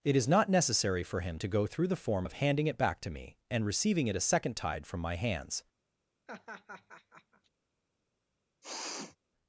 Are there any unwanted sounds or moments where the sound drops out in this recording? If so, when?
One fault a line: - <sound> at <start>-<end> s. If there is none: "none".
- laugh at 6.3-7.5 s
- sniff at 8.6-9.2 s